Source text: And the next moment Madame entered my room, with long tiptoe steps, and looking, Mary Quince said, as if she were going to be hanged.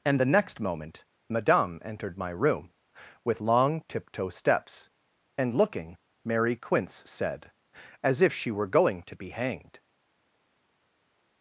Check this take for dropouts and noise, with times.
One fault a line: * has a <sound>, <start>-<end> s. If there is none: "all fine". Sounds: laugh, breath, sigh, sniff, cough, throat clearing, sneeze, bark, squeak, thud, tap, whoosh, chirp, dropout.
all fine